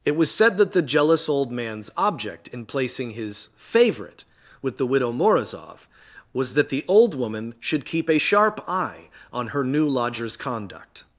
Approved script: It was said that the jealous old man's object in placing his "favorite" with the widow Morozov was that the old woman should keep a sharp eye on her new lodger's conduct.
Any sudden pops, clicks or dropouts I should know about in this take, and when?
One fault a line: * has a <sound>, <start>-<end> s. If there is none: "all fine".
all fine